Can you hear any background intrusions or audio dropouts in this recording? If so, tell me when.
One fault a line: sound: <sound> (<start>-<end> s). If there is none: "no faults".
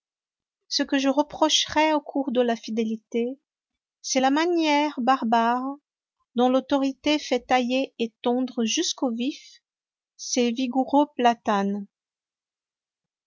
no faults